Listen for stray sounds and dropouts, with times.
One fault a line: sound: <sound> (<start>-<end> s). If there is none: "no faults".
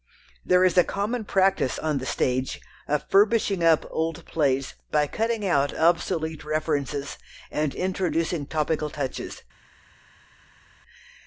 no faults